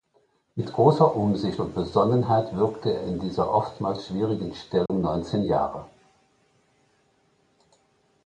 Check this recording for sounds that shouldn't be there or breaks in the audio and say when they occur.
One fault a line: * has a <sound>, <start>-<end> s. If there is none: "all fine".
* has a dropout, 4.9-4.9 s